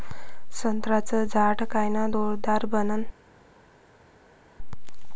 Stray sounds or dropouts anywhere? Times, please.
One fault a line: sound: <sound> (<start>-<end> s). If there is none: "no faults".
no faults